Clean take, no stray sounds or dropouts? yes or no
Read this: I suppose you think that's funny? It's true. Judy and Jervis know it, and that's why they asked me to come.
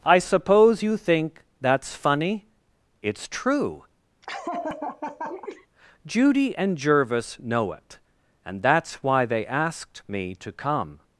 no